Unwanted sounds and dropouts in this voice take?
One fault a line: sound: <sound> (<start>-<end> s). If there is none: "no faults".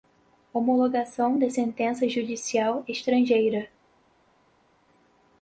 no faults